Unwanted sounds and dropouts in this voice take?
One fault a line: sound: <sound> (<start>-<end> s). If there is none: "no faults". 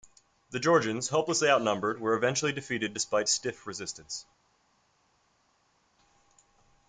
no faults